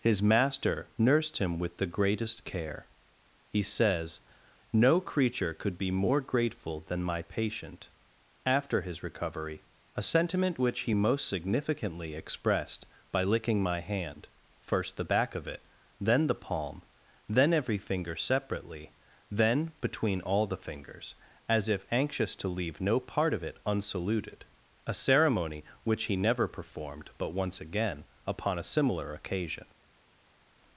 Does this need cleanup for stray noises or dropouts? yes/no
no